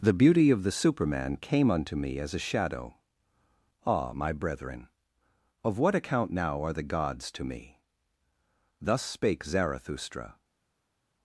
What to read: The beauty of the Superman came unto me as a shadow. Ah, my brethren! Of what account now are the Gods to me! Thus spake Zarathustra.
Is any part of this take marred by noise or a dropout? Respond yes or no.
no